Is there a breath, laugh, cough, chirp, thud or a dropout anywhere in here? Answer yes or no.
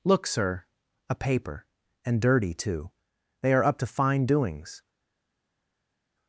no